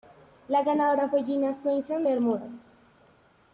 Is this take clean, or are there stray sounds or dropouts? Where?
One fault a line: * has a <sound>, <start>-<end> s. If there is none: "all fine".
all fine